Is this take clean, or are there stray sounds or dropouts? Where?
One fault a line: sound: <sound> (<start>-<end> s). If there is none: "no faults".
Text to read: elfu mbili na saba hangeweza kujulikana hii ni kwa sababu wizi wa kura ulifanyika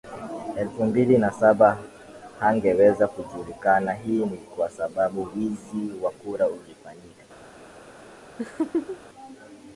sound: laugh (8.4-9.0 s)